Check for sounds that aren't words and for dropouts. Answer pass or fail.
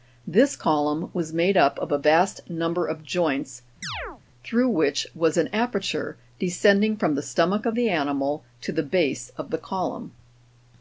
fail